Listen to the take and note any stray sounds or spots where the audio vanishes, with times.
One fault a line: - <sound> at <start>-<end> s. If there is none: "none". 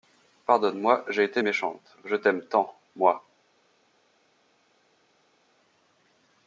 none